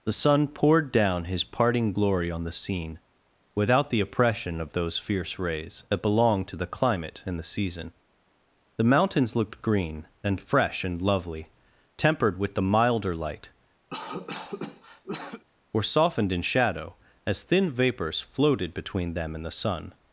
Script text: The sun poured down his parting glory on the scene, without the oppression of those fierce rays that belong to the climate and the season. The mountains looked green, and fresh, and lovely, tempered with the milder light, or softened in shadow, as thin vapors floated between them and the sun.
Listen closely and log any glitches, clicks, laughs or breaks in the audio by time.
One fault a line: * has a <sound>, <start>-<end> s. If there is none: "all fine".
* has a cough, 13.9-15.4 s